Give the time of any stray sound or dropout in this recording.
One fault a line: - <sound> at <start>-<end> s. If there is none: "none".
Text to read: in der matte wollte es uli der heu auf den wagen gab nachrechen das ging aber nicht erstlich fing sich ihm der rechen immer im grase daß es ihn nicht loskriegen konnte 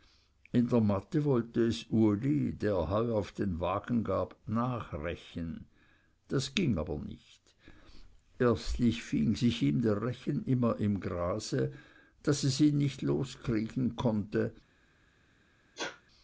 - sneeze at 15.8-16.0 s